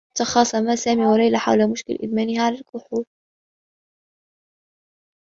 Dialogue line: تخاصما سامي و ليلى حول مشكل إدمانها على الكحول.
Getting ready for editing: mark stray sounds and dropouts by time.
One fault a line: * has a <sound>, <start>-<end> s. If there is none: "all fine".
all fine